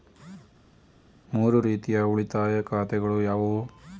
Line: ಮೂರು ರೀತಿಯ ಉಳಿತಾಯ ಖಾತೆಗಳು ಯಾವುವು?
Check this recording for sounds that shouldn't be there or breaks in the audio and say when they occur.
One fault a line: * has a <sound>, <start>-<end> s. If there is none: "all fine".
all fine